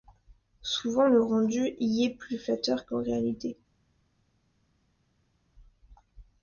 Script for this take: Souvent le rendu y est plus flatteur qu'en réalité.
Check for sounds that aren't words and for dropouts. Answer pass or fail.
pass